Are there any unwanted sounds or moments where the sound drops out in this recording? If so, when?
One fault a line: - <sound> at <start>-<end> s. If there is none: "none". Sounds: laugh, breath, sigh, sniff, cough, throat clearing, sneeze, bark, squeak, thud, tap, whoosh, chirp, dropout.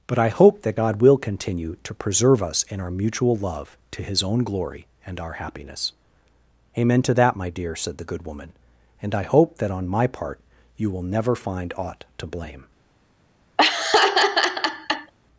- laugh at 13.6-15.1 s